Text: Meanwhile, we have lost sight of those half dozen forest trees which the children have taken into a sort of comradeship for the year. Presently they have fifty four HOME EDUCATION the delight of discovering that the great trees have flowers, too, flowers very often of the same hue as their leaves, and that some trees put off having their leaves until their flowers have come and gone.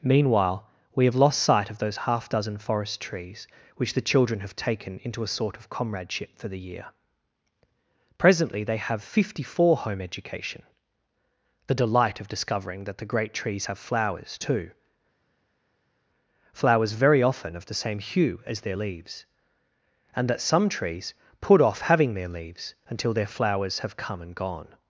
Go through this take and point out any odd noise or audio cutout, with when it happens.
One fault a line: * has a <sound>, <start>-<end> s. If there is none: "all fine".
all fine